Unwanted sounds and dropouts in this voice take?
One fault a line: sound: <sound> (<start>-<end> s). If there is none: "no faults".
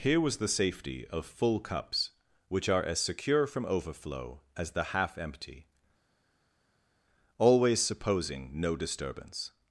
no faults